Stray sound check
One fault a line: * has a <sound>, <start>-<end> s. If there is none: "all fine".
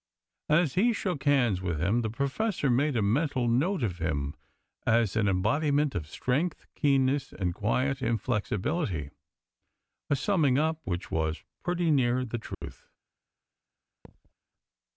* has a dropout, 12.5-12.6 s
* has a thud, 14.0-14.3 s